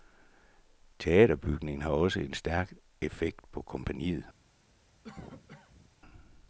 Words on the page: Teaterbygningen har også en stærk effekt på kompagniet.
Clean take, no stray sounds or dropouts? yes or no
no